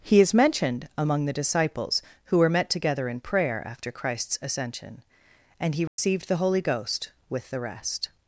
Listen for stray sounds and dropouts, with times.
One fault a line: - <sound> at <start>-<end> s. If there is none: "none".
- dropout at 5.9-6.0 s